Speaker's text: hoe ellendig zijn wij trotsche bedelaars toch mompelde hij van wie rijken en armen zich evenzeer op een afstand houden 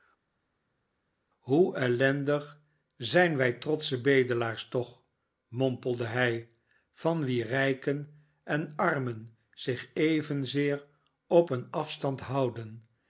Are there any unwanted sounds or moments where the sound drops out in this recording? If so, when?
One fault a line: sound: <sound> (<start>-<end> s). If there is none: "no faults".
no faults